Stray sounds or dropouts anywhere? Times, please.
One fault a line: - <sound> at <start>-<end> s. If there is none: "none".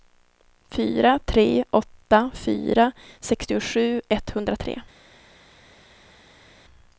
none